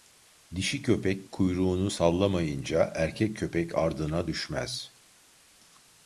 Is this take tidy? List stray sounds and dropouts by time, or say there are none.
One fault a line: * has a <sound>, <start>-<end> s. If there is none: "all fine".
all fine